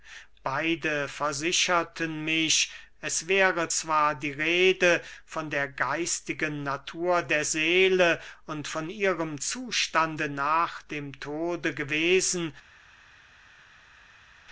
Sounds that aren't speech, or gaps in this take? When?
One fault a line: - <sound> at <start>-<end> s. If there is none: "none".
none